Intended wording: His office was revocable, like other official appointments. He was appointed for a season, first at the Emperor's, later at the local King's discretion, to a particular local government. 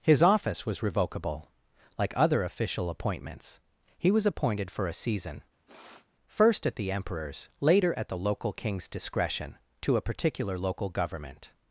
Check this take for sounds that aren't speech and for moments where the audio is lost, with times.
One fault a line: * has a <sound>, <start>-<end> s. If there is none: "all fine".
* has a sniff, 5.7-6.1 s